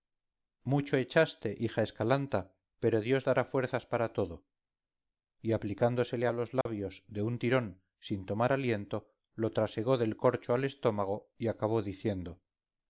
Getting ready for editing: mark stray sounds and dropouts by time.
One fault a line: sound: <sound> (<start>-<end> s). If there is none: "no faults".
sound: dropout (6.6-6.7 s)